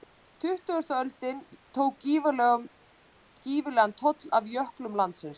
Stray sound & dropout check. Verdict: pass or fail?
pass